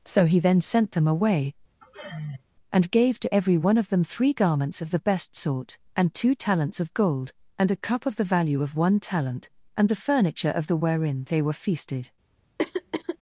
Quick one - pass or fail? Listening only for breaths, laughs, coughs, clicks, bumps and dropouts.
fail